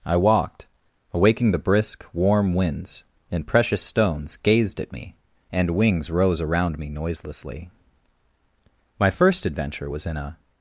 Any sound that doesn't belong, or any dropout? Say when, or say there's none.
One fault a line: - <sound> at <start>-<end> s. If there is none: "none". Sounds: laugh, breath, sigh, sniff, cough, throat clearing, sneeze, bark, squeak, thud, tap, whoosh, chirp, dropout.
none